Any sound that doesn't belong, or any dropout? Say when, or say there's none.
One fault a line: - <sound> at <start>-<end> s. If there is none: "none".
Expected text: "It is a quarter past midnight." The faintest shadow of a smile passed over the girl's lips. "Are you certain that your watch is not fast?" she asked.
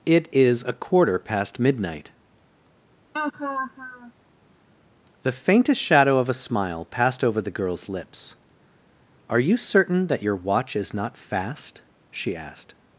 - laugh at 3.1-4.1 s